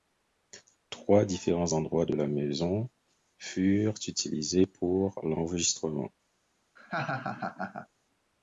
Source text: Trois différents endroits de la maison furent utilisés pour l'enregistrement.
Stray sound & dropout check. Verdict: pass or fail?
fail